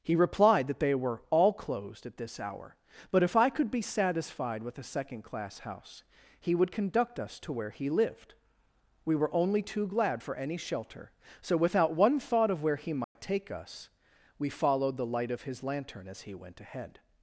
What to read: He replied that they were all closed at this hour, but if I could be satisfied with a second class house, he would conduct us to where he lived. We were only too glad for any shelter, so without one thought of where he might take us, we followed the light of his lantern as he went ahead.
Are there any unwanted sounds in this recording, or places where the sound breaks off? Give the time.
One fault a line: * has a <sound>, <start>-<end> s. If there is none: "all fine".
* has a dropout, 13.0-13.2 s